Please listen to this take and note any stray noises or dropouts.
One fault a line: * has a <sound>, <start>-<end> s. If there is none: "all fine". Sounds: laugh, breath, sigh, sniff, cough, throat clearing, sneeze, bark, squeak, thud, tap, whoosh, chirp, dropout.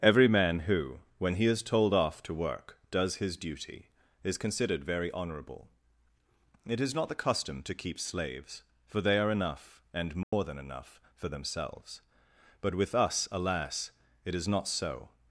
* has a dropout, 10.2-10.3 s